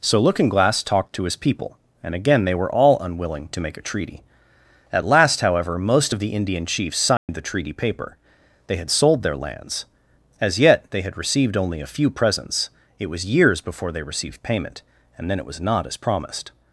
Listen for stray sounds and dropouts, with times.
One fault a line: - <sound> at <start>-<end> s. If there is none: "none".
- dropout at 7.2-7.3 s